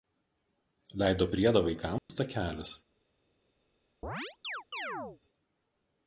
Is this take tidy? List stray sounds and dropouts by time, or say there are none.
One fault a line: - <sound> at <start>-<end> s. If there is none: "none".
- dropout at 2.0-2.1 s
- chirp at 4.0-5.2 s